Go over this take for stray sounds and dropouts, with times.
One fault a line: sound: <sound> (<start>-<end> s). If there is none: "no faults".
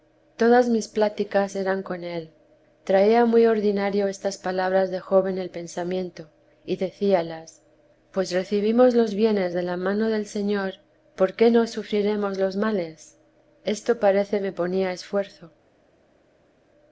no faults